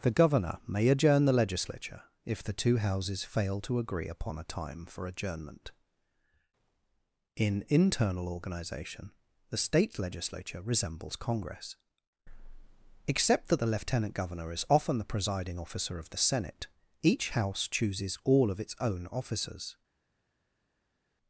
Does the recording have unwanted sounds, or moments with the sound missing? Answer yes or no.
no